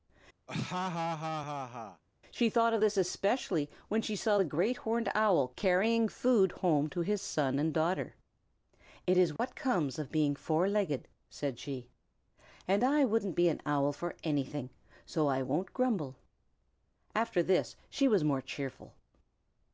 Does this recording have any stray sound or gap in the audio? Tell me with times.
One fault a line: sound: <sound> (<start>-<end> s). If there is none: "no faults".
sound: laugh (0.5-2.0 s)
sound: dropout (9.4-9.4 s)